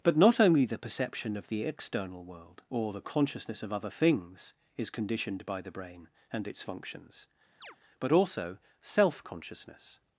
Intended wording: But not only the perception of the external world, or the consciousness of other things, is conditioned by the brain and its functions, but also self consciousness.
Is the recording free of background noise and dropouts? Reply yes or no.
no